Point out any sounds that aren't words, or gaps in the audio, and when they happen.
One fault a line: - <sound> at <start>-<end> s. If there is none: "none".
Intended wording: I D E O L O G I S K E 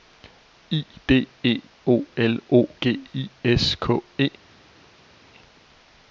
none